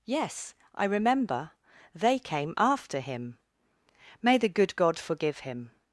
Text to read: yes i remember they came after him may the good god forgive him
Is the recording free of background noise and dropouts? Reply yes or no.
yes